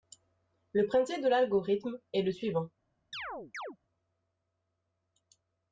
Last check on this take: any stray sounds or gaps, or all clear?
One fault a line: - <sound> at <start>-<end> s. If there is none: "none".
- chirp at 3.1-3.8 s